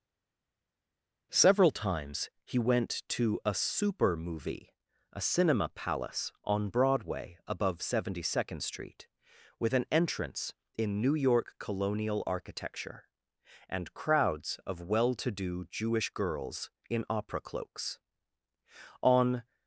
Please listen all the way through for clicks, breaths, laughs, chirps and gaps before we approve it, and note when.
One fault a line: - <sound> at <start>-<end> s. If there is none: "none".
none